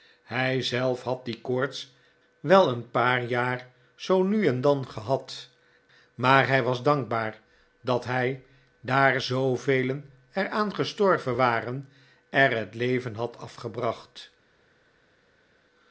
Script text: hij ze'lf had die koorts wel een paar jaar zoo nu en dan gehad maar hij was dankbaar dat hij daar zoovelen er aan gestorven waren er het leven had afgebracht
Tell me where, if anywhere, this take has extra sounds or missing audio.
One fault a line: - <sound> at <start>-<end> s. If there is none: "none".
none